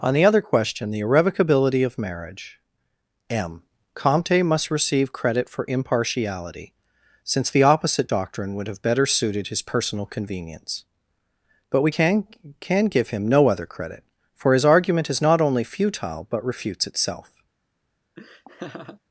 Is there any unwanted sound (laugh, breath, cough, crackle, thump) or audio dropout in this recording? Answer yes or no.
yes